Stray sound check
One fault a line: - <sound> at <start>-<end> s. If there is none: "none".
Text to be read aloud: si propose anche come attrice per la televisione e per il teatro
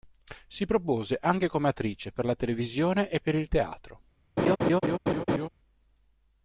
- laugh at 4.4-5.5 s